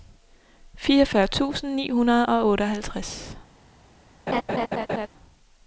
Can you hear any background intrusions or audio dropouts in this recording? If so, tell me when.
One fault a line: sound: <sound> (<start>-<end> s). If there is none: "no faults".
sound: laugh (4.3-5.1 s)